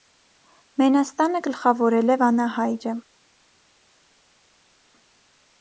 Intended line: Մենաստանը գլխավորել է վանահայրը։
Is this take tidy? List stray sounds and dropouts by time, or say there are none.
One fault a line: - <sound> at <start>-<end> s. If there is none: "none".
none